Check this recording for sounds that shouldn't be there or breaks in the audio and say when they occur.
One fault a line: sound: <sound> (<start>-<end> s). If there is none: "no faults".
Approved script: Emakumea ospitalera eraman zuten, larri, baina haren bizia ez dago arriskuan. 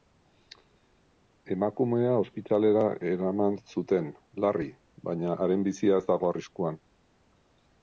no faults